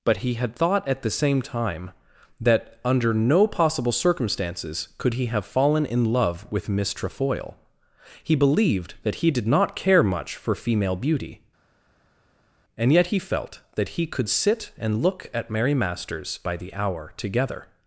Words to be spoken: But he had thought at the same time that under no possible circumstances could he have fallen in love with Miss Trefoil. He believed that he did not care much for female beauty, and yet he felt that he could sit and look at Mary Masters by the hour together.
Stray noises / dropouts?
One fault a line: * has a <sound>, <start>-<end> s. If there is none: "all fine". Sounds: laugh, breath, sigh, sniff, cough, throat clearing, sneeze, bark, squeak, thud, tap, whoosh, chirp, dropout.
all fine